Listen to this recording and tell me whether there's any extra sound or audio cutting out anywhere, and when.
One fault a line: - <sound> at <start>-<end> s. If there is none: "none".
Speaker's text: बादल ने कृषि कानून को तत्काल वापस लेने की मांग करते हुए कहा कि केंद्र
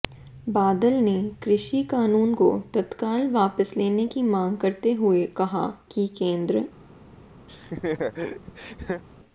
- laugh at 7.5-9.0 s